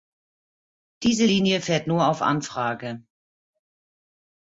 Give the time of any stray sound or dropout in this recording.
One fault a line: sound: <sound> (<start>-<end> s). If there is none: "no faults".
no faults